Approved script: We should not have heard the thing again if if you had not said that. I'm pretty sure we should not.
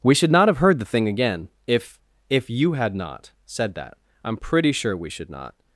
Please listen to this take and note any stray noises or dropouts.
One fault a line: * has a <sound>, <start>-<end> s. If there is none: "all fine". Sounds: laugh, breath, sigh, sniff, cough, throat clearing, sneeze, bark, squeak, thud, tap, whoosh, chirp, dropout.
all fine